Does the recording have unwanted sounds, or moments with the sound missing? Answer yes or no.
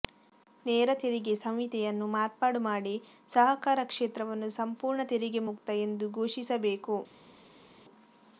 no